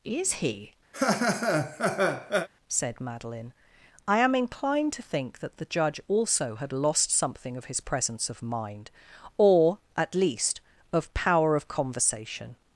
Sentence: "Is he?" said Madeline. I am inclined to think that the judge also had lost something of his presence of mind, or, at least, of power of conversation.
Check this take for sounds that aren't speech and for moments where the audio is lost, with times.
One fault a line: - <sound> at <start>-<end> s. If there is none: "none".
- laugh at 0.9-2.5 s